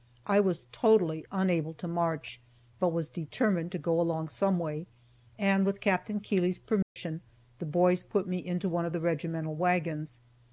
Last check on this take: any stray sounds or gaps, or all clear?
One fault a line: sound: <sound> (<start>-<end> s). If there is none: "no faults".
sound: dropout (6.8-7.0 s)